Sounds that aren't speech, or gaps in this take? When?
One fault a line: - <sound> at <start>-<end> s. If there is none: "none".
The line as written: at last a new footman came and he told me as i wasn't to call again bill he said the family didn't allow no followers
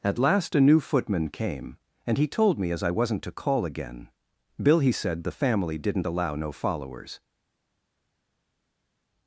none